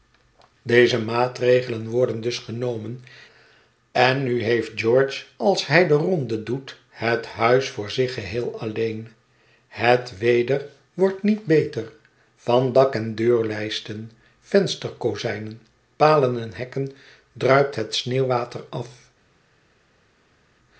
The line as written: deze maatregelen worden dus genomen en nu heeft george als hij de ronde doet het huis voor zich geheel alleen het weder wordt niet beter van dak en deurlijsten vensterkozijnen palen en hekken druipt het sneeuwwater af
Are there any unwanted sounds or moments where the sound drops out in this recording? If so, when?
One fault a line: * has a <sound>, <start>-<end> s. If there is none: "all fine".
all fine